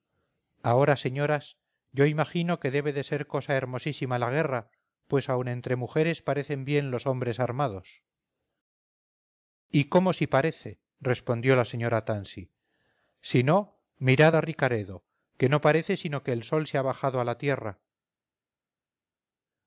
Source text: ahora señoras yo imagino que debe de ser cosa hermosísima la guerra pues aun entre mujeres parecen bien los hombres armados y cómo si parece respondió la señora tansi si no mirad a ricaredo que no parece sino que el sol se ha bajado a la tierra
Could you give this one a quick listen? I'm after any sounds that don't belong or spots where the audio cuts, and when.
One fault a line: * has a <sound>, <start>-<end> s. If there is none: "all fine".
all fine